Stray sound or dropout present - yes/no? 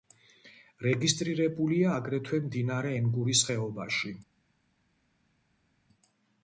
no